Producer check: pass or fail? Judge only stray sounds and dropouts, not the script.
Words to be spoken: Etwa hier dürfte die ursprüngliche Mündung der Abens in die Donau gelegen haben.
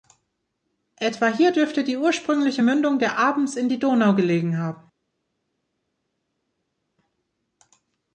pass